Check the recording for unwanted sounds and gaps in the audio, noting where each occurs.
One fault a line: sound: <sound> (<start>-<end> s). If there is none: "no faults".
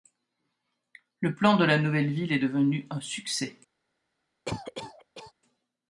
sound: cough (4.5-5.3 s)